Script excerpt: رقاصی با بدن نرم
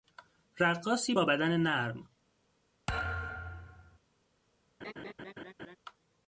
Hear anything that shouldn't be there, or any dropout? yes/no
yes